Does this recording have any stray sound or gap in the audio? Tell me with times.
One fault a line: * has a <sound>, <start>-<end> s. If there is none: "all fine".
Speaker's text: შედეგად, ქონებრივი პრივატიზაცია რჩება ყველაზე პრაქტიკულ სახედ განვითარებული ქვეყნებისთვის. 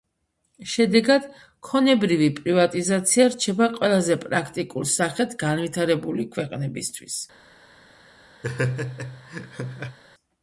* has a laugh, 8.4-10.0 s